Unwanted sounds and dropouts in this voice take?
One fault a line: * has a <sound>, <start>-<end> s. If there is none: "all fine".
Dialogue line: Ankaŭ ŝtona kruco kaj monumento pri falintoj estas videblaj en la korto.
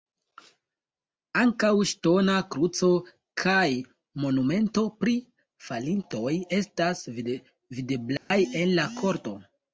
* has a dropout, 8.2-8.3 s